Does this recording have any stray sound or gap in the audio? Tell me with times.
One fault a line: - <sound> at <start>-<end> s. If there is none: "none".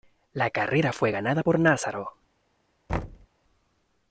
- thud at 2.9-3.3 s